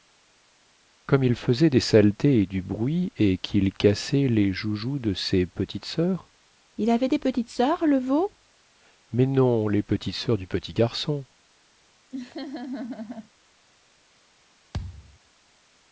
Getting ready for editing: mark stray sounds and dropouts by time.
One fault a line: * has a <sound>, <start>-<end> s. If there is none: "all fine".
* has a laugh, 12.1-13.3 s
* has a thud, 14.7-15.2 s